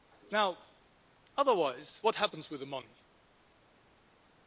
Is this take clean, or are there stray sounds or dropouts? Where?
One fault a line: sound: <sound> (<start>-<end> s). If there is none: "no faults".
no faults